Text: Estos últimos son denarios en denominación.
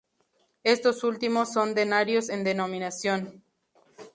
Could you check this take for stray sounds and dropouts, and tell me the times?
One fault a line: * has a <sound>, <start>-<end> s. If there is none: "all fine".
all fine